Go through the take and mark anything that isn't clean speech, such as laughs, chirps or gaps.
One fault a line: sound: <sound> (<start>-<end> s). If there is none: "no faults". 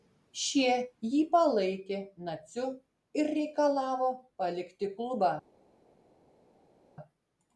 no faults